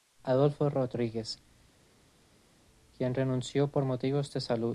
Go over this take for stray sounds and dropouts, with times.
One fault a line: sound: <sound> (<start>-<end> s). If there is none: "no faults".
no faults